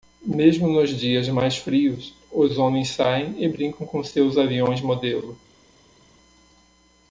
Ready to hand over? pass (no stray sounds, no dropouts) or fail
pass